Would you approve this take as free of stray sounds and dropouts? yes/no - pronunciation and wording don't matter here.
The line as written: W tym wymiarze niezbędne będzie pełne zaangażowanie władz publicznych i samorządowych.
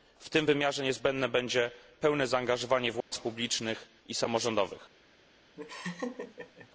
no